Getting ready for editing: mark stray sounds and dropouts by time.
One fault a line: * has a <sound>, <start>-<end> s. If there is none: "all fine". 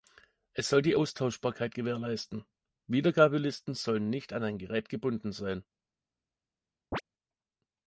* has a chirp, 6.9-7.0 s